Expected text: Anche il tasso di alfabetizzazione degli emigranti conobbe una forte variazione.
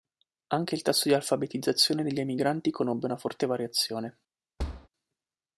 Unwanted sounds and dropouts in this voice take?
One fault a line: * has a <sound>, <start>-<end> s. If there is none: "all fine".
* has a thud, 4.6-4.9 s